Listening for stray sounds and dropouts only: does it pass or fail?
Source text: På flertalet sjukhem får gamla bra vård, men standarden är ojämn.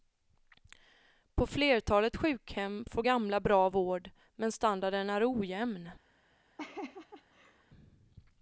fail